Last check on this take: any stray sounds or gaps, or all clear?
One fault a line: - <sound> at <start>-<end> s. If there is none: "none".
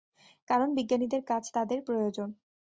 none